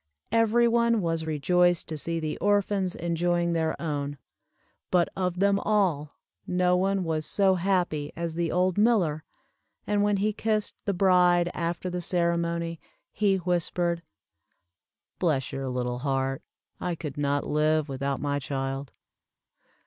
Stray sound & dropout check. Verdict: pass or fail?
pass